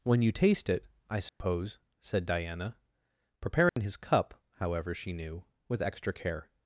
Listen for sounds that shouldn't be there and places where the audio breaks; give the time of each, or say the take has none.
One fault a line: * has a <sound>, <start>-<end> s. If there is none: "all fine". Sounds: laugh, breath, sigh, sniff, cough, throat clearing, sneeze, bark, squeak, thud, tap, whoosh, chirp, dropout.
* has a dropout, 1.3-1.4 s
* has a dropout, 3.7-3.8 s